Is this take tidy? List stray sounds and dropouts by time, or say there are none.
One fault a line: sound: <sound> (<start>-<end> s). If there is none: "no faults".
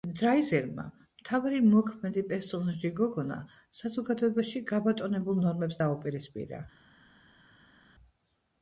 no faults